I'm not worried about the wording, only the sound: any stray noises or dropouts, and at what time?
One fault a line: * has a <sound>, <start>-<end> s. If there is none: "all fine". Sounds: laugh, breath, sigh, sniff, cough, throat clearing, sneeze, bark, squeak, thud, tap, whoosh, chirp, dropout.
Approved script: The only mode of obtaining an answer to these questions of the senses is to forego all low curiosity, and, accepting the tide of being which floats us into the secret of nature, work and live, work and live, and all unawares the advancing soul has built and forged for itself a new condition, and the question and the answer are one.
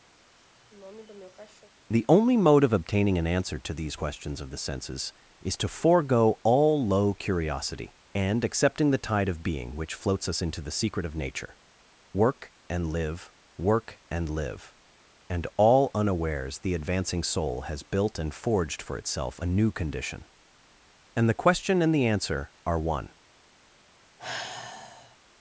* has a sniff, 0.2-1.7 s
* has a sigh, 24.2-25.2 s